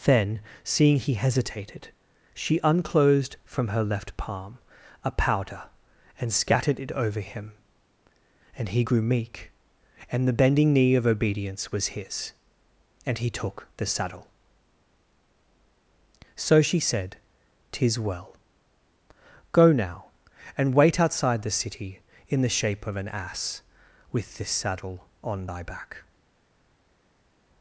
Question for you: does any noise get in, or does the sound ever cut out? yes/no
no